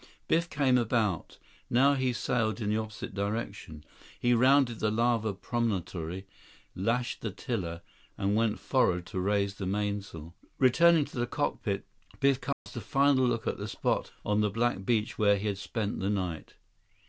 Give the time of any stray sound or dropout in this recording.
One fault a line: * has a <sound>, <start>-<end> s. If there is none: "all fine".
* has a dropout, 12.5-12.7 s